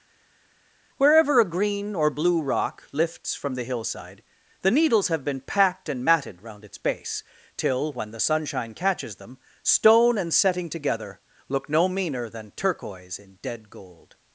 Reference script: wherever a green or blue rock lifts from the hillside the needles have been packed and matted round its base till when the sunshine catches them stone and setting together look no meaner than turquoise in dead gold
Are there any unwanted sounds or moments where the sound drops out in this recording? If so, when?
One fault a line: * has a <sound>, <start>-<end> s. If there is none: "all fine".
all fine